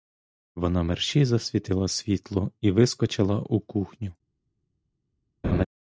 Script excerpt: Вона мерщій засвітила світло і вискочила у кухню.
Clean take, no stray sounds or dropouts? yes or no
no